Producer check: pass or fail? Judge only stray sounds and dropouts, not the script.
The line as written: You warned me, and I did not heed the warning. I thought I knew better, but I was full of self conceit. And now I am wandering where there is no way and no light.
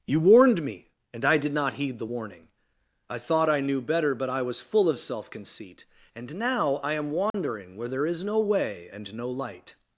fail